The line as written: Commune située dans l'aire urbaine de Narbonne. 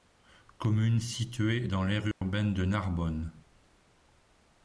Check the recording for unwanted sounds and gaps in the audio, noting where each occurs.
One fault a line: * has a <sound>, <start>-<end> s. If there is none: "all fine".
* has a dropout, 2.1-2.2 s